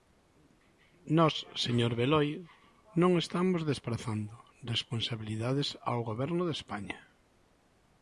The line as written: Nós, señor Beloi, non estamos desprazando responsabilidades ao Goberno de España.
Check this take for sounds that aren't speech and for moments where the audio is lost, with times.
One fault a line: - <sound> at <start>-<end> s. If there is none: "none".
none